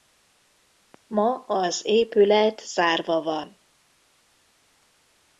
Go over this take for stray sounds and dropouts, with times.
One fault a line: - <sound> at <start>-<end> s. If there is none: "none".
none